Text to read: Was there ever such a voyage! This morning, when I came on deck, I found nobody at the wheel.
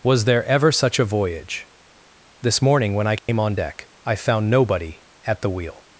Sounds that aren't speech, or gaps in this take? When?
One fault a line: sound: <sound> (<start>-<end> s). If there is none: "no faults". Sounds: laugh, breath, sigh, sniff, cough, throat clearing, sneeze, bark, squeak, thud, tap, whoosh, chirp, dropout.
sound: dropout (3.2-3.3 s)